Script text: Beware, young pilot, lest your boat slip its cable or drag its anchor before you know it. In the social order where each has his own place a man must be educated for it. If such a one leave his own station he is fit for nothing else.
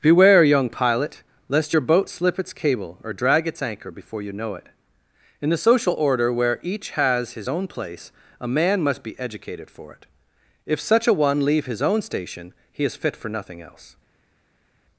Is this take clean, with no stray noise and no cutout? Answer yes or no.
yes